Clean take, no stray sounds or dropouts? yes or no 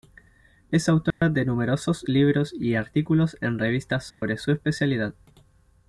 no